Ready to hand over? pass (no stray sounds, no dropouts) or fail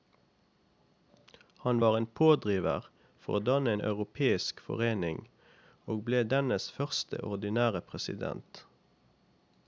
pass